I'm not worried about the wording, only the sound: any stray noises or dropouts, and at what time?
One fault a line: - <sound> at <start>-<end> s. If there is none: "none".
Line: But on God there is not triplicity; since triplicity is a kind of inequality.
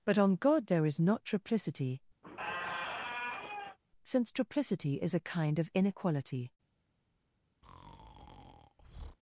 - squeak at 2.2-3.8 s
- breath at 7.6-9.2 s